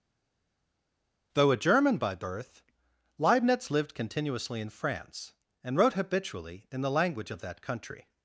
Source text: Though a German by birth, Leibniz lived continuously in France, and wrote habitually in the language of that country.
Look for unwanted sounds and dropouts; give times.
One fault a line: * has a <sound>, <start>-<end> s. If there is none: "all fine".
all fine